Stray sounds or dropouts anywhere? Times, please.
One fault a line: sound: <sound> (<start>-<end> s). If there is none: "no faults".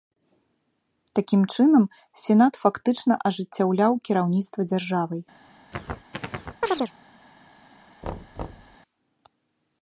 sound: chirp (5.7-6.9 s)
sound: thud (8.0-8.8 s)